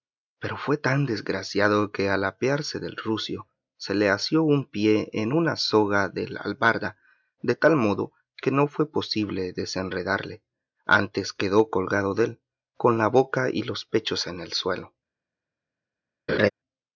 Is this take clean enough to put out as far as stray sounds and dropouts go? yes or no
no